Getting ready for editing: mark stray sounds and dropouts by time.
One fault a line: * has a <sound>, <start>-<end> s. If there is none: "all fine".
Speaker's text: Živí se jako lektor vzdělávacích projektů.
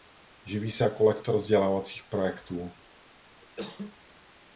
* has a cough, 3.4-4.0 s